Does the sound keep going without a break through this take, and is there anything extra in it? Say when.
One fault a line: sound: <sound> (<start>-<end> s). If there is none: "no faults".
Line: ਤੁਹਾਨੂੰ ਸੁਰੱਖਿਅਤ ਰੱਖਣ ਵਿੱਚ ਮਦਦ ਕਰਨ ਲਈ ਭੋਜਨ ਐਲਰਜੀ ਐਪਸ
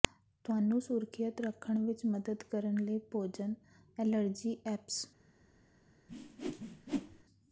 sound: whoosh (6.1-7.2 s)